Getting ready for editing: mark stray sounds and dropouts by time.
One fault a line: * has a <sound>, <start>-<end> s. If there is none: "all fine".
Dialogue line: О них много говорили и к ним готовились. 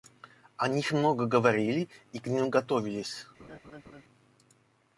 * has a laugh, 3.4-4.0 s